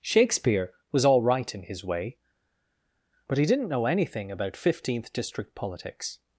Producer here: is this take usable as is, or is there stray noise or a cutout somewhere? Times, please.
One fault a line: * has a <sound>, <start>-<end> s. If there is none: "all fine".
all fine